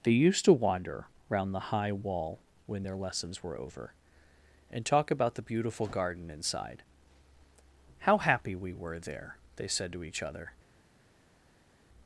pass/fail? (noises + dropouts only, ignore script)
pass